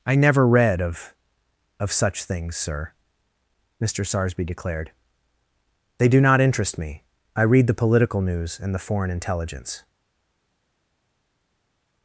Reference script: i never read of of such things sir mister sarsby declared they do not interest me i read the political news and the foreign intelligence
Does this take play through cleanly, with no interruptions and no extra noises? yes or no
yes